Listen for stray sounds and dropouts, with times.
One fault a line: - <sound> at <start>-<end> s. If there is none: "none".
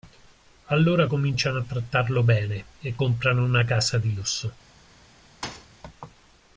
- thud at 5.4-5.7 s